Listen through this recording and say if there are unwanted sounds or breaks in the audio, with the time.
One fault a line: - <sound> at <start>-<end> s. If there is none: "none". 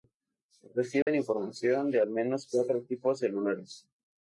- dropout at 1.0-1.1 s